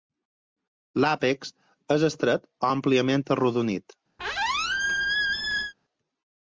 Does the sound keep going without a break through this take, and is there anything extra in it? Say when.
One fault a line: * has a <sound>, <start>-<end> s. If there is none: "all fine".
* has a squeak, 4.2-5.7 s